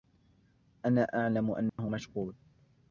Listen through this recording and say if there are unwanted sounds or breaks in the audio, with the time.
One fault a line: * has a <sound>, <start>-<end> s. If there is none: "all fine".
* has a dropout, 1.7-1.8 s